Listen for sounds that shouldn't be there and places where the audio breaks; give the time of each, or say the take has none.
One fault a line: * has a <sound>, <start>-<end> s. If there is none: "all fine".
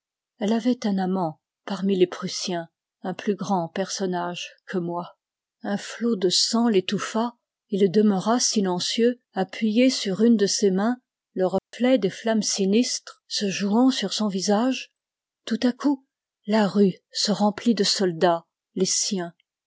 * has a dropout, 11.6-11.7 s